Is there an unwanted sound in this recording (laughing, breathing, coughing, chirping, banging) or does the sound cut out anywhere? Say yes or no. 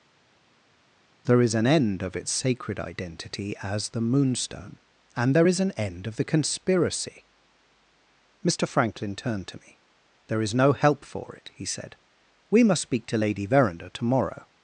no